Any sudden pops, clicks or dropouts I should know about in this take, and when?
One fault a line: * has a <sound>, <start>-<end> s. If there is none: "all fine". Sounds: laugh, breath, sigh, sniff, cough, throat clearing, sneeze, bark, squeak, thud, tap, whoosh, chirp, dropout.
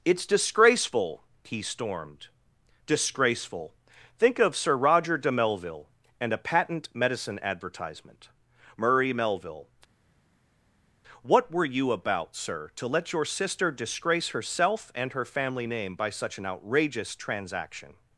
all fine